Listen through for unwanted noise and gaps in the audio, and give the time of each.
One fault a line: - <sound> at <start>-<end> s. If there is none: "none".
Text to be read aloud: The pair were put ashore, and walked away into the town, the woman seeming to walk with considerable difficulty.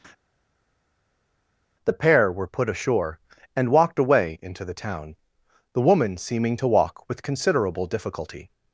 none